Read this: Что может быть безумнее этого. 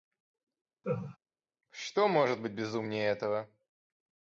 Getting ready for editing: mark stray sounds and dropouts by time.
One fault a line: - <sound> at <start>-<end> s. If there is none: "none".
- laugh at 0.8-1.2 s